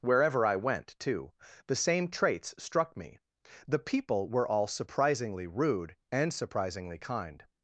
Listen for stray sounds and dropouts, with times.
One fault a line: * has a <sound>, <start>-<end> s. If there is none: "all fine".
all fine